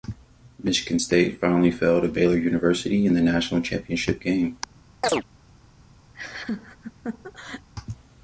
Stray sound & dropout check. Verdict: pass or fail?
fail